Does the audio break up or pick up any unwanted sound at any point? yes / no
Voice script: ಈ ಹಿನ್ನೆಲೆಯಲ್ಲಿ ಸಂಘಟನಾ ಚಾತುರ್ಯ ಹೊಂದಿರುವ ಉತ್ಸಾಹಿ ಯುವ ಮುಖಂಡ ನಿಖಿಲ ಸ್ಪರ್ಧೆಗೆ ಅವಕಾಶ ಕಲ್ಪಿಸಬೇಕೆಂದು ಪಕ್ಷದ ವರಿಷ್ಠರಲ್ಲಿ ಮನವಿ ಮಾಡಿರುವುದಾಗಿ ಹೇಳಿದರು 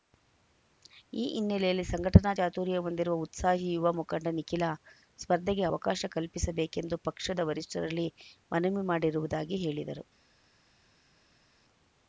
no